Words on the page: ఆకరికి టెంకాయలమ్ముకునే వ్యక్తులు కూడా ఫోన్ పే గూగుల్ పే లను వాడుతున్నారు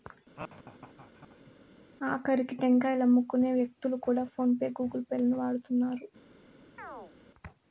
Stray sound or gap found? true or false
true